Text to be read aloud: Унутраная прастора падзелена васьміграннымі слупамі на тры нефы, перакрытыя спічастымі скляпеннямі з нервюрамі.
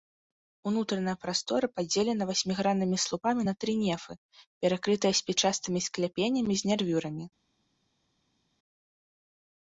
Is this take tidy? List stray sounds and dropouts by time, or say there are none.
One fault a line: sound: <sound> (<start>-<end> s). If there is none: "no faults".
no faults